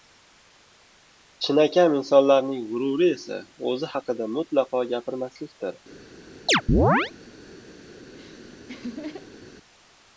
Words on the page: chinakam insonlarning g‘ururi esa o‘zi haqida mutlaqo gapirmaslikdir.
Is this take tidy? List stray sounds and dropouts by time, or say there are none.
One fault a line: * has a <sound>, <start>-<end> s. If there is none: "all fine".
* has a chirp, 6.5-7.1 s
* has a laugh, 8.0-9.5 s